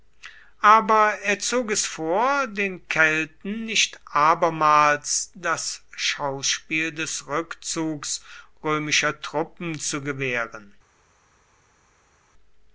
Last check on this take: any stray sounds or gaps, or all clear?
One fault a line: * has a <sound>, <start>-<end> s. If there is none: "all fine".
all fine